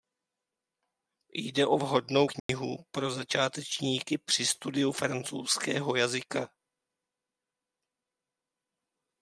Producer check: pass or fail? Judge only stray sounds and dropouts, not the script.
fail